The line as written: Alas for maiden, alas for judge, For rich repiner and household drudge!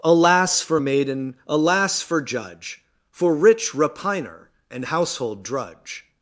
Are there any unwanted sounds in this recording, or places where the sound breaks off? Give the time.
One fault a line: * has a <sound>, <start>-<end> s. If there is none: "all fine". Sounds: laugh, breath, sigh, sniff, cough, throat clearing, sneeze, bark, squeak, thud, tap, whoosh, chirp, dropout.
all fine